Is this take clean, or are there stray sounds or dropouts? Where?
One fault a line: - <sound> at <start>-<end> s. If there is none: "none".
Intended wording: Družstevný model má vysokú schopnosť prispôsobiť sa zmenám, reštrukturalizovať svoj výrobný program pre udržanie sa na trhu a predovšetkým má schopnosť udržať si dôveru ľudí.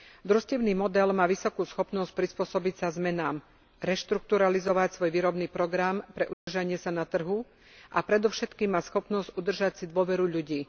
- dropout at 6.3-6.5 s